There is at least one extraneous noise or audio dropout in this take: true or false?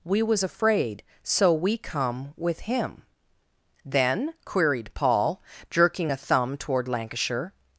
false